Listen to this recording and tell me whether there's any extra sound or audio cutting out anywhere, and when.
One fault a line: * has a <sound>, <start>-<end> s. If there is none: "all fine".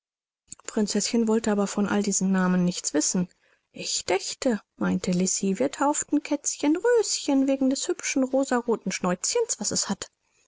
all fine